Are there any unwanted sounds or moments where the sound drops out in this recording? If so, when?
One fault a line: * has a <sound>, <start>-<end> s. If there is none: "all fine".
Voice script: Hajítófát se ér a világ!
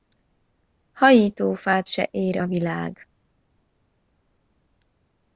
all fine